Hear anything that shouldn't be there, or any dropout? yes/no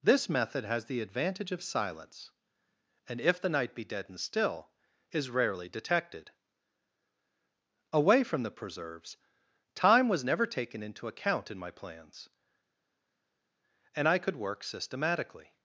no